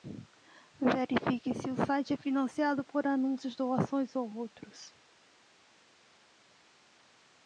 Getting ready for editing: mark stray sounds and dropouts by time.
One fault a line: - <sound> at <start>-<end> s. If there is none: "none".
none